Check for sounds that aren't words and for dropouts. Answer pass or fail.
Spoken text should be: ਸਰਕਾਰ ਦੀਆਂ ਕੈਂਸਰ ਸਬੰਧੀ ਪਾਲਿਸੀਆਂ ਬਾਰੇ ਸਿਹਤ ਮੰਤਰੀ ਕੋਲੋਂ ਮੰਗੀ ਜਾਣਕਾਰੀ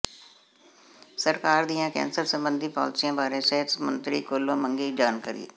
pass